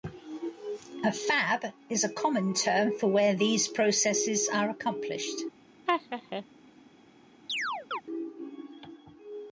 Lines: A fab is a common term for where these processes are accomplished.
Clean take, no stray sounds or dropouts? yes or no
no